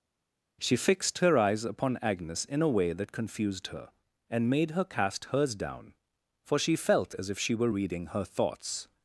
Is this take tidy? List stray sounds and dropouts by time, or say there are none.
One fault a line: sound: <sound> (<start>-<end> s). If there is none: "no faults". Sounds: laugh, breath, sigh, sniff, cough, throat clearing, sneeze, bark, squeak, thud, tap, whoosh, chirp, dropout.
no faults